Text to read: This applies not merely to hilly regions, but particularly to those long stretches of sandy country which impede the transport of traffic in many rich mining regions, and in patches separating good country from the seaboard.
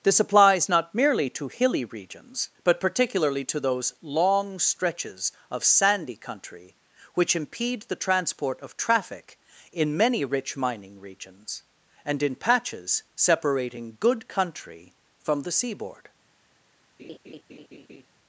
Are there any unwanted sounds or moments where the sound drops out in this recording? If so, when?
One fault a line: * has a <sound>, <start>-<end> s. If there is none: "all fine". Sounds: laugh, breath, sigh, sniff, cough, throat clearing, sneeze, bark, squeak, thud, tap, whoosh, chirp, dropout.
* has a laugh, 17.0-18.1 s